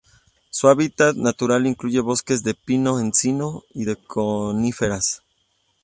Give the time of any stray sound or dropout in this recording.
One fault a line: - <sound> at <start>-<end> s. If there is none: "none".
none